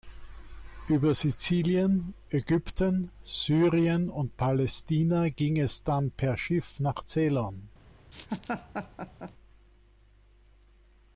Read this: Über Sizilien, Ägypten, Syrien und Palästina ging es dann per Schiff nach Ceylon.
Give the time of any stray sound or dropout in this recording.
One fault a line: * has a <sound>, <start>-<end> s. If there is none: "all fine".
* has a laugh, 8.1-9.3 s